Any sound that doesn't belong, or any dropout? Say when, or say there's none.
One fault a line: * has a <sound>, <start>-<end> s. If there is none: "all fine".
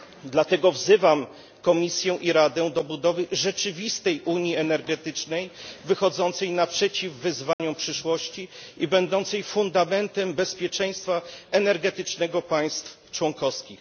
* has a dropout, 7.5-7.6 s